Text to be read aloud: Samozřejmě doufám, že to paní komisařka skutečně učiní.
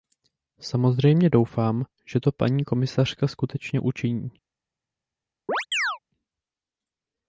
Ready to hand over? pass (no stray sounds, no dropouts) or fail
fail